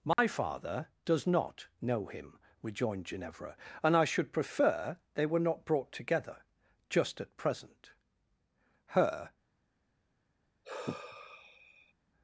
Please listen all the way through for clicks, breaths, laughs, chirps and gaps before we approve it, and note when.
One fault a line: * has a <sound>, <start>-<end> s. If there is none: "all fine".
* has a dropout, 0.1-0.2 s
* has a sigh, 10.6-11.9 s